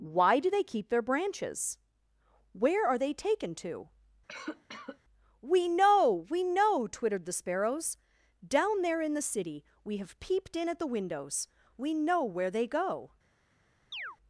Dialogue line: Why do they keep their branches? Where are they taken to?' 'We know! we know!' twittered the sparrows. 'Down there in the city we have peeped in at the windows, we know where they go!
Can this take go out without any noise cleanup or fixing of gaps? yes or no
no